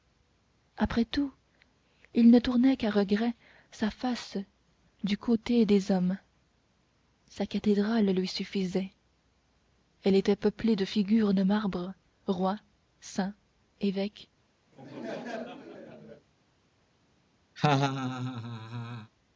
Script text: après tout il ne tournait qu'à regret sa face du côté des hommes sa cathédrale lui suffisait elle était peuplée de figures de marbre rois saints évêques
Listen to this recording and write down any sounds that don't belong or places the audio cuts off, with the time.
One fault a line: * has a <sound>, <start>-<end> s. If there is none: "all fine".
* has a laugh, 14.7-16.3 s
* has a laugh, 17.6-19.1 s